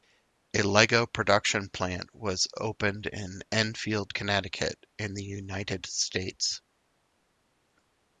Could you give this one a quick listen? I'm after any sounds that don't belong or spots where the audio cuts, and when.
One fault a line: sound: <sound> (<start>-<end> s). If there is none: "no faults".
no faults